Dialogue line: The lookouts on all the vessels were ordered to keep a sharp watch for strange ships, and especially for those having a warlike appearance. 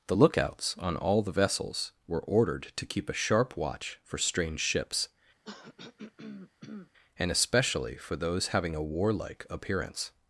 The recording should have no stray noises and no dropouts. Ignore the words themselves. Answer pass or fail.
fail